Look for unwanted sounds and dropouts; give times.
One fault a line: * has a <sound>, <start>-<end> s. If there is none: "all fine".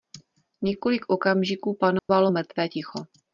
* has a dropout, 2.0-2.1 s